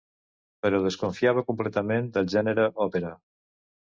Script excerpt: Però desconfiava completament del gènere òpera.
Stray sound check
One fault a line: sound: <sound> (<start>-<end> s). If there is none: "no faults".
no faults